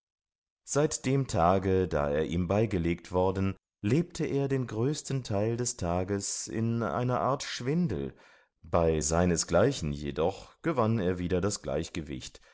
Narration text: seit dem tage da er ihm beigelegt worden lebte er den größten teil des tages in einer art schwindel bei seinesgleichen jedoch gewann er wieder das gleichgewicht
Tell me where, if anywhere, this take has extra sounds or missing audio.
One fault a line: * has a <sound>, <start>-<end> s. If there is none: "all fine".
all fine